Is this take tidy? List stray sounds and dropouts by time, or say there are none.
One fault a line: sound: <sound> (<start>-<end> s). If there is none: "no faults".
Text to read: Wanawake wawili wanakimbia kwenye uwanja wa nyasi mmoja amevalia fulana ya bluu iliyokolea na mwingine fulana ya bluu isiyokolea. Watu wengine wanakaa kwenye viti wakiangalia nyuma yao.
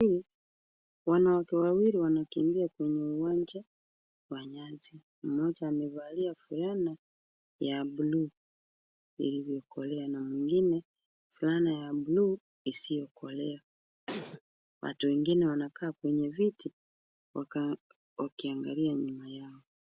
sound: sneeze (14.1-14.4 s)